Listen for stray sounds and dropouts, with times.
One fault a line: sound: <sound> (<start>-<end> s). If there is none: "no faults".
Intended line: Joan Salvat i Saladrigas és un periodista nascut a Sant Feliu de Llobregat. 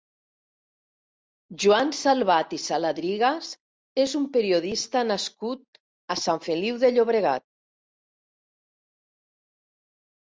no faults